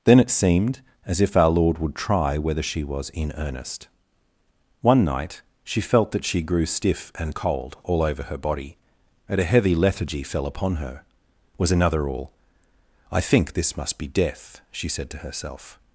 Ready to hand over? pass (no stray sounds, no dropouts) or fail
pass